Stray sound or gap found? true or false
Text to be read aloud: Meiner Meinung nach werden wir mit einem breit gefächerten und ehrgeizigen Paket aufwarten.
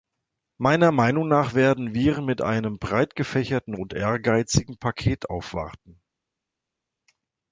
false